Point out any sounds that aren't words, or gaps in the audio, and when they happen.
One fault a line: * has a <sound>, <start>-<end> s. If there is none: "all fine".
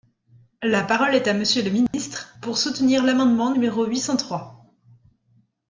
* has a dropout, 1.9-1.9 s